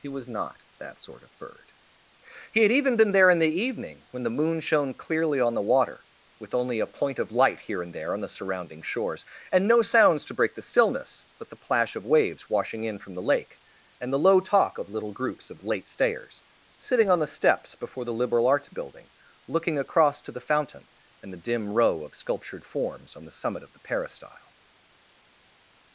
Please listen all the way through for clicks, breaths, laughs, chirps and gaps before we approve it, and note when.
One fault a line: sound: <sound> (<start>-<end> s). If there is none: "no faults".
no faults